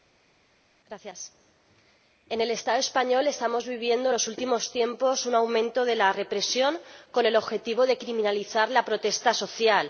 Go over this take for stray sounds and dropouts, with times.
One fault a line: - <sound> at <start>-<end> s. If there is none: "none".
none